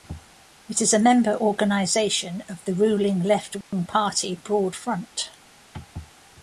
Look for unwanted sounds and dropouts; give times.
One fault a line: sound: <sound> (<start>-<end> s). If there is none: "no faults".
sound: dropout (3.6-3.7 s)